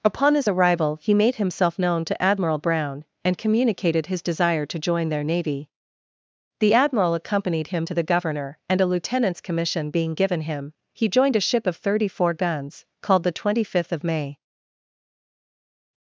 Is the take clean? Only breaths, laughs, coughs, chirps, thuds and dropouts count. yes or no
yes